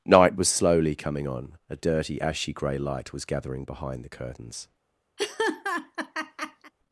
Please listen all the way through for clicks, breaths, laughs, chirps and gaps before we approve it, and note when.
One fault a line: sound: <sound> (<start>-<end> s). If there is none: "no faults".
sound: laugh (5.2-6.7 s)